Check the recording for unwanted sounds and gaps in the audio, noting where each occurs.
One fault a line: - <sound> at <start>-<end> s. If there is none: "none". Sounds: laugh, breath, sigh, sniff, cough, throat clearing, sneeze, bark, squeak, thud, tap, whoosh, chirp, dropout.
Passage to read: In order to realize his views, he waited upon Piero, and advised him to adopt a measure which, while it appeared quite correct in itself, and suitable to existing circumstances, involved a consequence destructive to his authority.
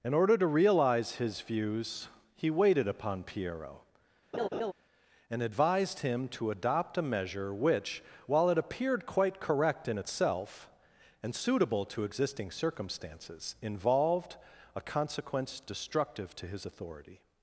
- laugh at 4.3-4.7 s